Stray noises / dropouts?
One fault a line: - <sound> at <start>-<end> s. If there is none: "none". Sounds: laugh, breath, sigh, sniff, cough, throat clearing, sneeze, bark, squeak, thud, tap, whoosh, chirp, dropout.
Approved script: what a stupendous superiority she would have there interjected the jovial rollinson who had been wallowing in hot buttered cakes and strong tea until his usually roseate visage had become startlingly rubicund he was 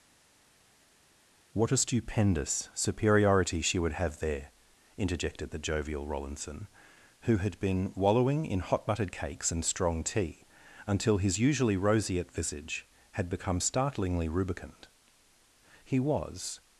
none